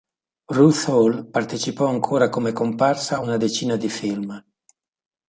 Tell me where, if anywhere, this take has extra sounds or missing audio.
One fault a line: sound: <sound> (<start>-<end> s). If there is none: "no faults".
no faults